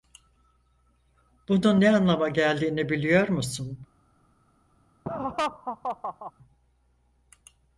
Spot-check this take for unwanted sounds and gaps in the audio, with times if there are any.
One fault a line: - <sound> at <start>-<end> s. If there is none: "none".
- laugh at 5.1-6.3 s